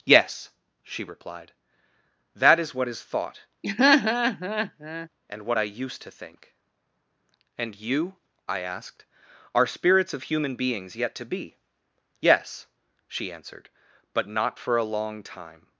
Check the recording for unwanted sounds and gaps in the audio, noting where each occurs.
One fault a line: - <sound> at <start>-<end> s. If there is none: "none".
- laugh at 3.6-5.1 s